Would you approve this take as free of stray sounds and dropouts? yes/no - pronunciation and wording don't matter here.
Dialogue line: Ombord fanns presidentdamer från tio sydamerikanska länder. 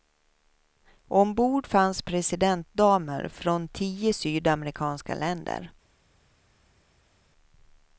yes